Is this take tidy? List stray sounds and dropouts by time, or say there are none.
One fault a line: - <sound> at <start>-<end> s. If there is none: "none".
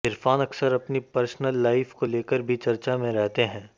none